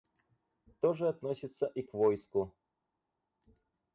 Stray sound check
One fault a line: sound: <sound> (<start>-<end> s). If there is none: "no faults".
no faults